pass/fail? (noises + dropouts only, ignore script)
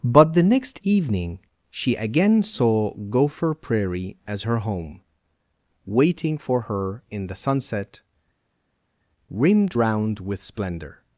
pass